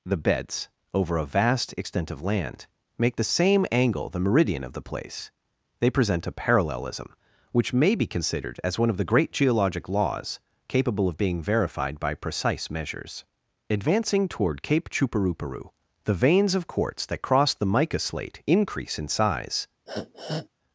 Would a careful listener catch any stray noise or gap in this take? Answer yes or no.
yes